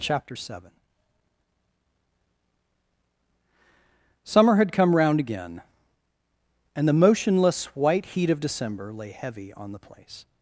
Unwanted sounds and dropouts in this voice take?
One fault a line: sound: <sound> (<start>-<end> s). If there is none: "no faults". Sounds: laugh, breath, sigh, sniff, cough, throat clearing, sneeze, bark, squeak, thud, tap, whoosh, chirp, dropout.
no faults